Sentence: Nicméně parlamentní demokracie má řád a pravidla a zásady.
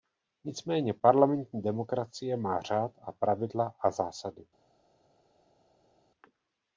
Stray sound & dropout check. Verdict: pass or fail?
pass